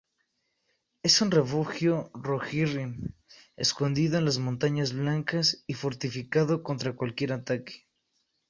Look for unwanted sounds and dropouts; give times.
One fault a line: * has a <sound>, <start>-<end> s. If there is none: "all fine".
all fine